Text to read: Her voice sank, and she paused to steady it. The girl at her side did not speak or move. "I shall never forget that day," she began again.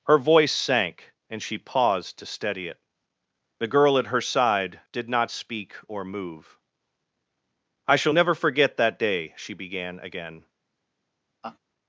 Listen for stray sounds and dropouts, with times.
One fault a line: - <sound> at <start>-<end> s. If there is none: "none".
- laugh at 11.4-11.6 s